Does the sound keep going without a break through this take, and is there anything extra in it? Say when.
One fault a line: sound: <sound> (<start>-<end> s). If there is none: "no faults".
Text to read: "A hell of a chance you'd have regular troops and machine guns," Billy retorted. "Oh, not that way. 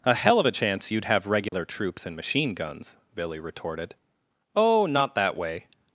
sound: dropout (1.5-1.5 s)